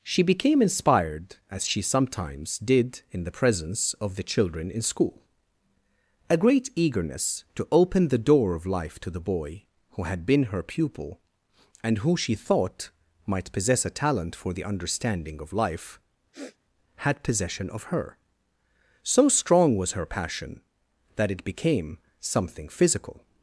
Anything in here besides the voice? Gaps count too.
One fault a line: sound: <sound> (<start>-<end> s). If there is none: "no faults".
sound: sniff (16.3-16.6 s)